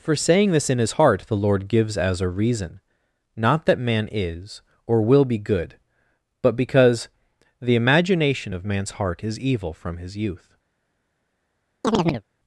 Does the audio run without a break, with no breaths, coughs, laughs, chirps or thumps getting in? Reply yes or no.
no